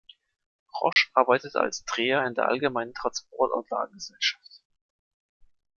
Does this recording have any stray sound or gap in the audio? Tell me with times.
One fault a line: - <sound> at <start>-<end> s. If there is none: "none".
- dropout at 0.9-1.0 s